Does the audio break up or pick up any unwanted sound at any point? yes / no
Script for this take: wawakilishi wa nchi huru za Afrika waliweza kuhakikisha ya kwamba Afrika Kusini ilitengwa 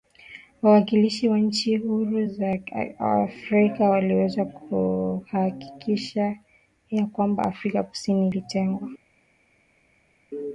no